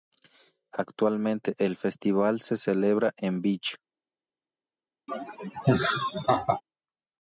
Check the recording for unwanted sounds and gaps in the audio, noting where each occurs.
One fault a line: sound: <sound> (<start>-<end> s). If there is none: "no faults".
sound: laugh (5.1-6.6 s)